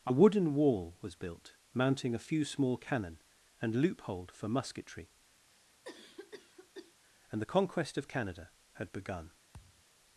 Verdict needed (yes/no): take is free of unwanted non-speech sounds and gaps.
no